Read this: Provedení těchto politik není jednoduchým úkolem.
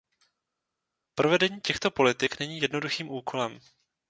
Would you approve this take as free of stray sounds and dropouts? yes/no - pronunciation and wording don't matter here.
yes